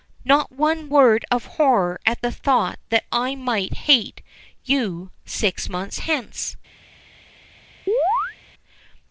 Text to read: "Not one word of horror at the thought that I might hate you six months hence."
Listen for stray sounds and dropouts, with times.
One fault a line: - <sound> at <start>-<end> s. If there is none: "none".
- chirp at 7.9-8.4 s